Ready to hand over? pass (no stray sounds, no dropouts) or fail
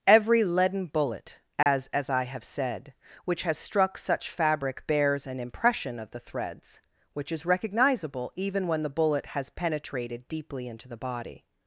fail